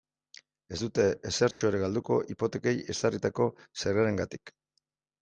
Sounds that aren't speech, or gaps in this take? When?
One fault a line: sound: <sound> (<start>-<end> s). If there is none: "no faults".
sound: dropout (1.5-1.6 s)